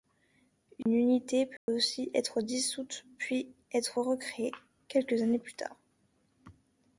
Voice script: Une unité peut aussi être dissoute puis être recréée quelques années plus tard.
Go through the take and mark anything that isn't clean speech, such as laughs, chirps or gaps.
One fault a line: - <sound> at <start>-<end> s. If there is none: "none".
- dropout at 0.8-0.9 s
- dropout at 1.6-1.7 s